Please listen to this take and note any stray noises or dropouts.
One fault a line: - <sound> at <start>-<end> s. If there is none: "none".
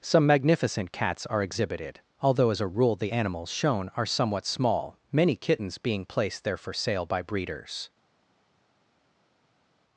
none